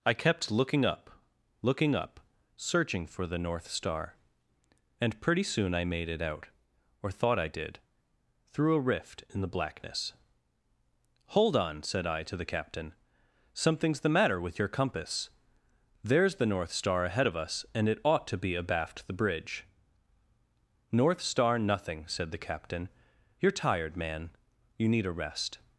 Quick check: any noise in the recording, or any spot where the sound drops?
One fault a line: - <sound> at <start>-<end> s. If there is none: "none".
none